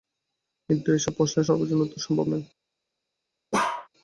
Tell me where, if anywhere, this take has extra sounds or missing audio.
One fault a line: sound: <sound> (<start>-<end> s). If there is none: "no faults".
sound: bark (3.5-3.9 s)